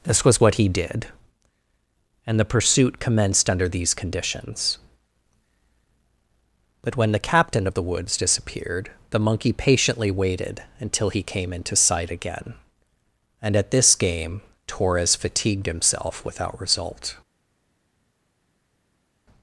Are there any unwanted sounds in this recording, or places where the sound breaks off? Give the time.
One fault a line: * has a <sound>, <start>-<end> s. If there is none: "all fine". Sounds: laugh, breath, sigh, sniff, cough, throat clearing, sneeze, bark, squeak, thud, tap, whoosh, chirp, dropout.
all fine